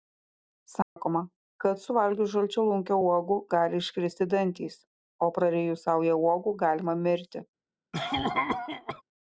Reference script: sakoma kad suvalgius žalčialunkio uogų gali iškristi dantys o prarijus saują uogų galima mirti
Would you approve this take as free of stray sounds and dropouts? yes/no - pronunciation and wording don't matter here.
no